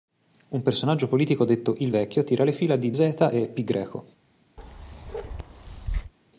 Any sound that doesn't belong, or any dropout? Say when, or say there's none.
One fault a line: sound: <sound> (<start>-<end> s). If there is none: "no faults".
sound: bark (4.6-6.1 s)